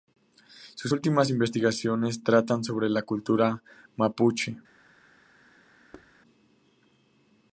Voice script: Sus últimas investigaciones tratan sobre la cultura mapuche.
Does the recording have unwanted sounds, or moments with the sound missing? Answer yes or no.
yes